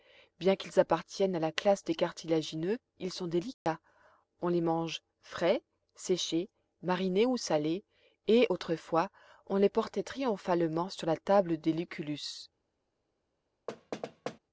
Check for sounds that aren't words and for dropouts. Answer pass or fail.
fail